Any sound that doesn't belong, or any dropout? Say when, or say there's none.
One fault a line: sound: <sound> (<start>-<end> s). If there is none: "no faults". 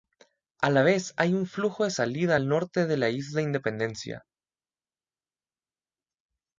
no faults